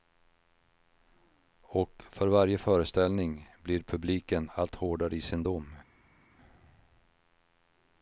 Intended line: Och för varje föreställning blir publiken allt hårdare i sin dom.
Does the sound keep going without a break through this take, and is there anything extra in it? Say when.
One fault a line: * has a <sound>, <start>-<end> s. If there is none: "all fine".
all fine